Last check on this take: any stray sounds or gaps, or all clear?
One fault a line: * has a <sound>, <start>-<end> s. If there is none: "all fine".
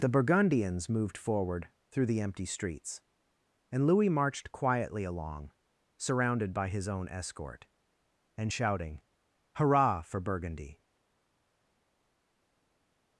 all fine